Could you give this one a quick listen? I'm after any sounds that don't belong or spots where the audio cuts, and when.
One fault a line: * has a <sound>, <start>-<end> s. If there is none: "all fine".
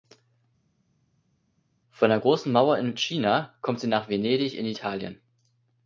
all fine